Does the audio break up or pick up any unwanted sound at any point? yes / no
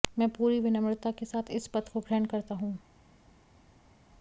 no